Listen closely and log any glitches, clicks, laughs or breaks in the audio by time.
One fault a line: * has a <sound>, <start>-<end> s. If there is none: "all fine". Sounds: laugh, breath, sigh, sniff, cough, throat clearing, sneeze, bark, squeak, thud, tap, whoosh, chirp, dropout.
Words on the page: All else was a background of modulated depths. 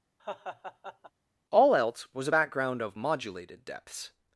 * has a laugh, 0.2-1.1 s